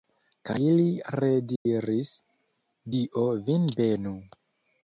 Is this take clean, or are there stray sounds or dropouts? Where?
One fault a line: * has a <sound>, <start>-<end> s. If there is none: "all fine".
* has a dropout, 1.6-1.7 s